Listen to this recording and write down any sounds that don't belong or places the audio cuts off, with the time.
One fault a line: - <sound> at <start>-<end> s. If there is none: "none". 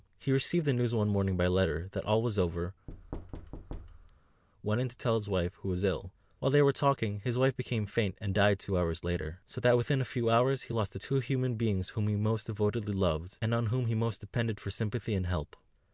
- thud at 2.9-4.4 s